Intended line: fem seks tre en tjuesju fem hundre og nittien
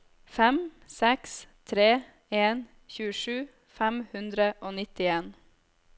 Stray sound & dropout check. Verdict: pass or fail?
pass